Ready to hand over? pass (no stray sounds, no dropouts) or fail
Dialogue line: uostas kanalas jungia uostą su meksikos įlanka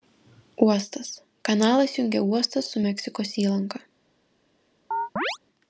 fail